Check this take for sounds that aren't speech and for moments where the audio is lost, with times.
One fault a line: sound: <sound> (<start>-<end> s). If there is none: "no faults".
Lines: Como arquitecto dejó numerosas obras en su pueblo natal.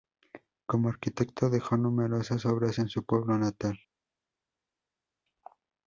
no faults